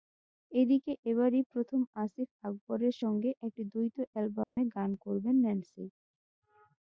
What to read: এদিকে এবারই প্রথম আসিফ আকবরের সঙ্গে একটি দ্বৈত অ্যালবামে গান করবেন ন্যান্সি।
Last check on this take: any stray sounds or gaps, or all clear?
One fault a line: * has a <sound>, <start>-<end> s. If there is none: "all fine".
* has a dropout, 4.4-4.6 s